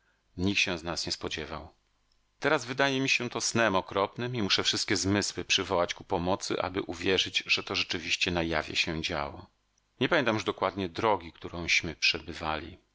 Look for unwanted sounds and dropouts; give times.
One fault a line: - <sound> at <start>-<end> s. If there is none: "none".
none